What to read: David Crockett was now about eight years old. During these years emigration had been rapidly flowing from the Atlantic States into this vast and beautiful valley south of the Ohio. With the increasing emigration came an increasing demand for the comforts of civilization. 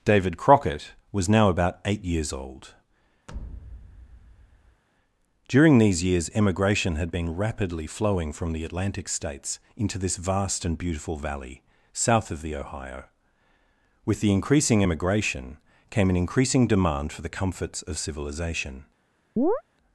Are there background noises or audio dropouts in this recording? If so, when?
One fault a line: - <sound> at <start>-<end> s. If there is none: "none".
- thud at 3.3-4.8 s
- chirp at 19.4-19.6 s